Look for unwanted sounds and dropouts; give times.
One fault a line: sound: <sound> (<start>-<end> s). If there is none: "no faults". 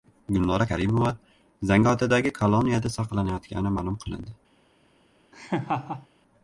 sound: laugh (5.3-6.1 s)